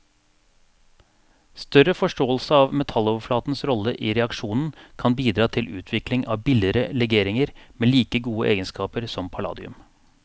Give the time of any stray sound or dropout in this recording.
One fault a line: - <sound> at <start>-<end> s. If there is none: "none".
none